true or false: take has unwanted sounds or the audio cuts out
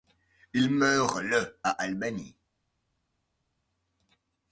false